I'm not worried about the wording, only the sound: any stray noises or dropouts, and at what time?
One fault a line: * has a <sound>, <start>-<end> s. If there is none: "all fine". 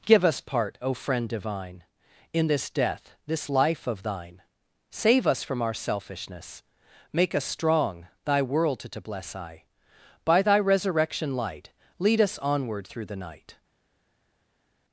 all fine